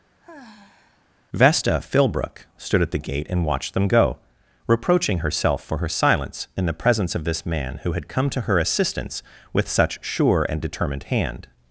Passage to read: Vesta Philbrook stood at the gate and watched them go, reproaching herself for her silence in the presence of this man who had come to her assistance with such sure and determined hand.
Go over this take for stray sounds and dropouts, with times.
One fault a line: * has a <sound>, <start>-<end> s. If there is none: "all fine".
* has a sigh, 0.2-1.1 s